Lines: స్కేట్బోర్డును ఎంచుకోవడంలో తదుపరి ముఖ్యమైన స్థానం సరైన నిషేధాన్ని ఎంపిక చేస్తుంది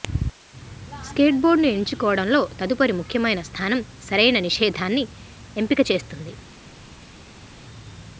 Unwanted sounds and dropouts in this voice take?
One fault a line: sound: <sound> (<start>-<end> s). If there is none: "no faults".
no faults